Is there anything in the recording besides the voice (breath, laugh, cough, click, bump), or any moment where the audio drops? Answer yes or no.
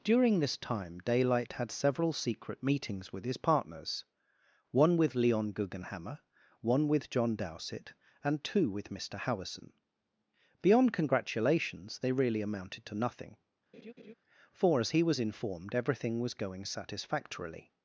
yes